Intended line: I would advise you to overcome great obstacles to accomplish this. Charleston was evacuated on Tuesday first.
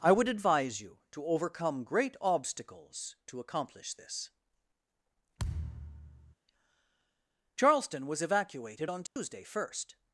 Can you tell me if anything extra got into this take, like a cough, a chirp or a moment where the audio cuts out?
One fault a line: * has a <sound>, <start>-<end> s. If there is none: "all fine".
* has a thud, 5.4-6.3 s
* has a dropout, 9.1-9.2 s